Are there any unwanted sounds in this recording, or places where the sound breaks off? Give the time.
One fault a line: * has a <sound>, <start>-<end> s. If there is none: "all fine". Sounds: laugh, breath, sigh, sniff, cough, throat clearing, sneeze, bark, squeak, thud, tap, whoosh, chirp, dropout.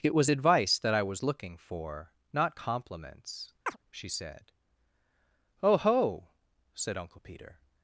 * has a chirp, 3.7-3.8 s